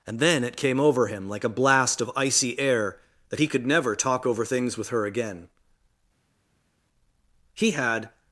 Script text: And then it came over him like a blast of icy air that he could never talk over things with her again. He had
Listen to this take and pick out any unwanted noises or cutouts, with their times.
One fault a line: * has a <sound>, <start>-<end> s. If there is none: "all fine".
all fine